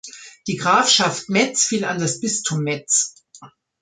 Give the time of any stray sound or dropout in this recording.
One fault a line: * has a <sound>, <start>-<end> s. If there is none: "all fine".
all fine